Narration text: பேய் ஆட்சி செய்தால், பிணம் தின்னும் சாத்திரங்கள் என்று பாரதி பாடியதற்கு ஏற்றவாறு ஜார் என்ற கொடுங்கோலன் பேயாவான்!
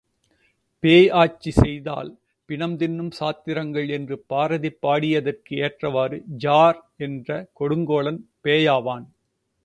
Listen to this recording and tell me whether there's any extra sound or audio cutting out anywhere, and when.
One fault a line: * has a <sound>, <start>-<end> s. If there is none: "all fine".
all fine